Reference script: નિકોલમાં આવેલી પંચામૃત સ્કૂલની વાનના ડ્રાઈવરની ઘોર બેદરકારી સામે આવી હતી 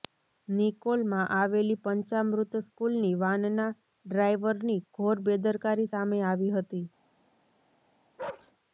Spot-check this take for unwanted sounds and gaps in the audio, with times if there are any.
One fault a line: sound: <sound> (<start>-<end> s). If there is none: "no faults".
sound: bark (8.2-8.5 s)